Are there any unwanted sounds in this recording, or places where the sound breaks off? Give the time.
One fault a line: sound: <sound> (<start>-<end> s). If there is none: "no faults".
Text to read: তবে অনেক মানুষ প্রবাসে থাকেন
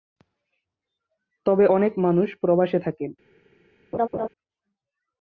sound: laugh (3.9-4.3 s)